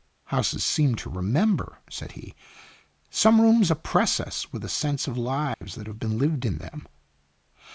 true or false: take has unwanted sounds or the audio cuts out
true